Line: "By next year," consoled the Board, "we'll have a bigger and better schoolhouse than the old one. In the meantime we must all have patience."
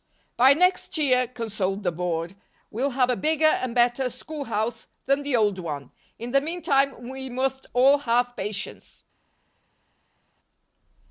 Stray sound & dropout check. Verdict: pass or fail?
pass